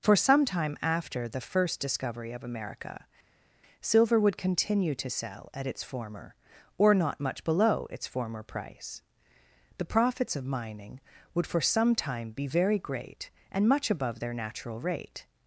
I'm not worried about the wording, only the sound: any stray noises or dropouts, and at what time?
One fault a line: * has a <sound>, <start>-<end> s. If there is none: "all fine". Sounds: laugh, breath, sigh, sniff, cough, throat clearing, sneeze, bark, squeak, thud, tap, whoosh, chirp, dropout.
all fine